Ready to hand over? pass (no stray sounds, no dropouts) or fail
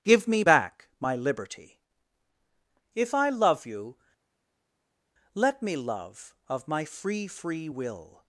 pass